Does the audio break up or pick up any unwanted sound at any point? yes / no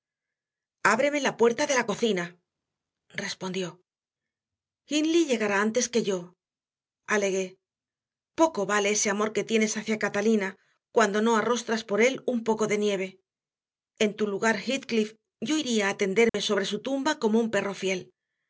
yes